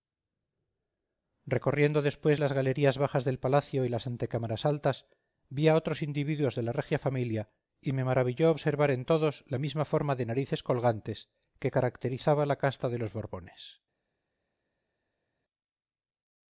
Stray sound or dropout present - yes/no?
no